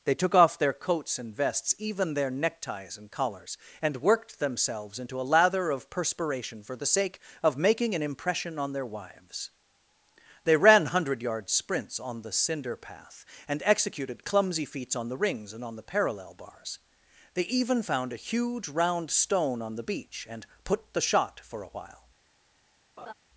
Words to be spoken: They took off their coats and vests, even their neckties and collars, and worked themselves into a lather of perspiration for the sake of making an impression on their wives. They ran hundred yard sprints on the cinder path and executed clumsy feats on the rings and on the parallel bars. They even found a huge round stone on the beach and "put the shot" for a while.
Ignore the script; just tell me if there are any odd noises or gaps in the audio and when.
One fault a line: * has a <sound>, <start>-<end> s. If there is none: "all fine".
* has a laugh, 23.0-23.1 s